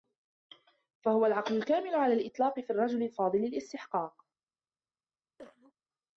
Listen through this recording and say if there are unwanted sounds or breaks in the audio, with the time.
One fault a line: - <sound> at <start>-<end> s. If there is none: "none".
- cough at 5.4-5.7 s